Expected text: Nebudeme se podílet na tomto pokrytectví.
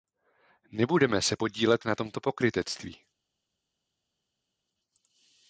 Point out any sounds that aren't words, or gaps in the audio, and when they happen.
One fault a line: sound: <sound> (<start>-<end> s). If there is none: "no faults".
no faults